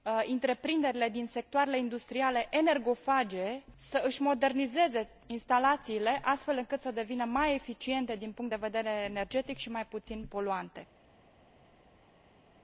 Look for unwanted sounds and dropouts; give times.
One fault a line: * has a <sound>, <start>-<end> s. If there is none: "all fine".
all fine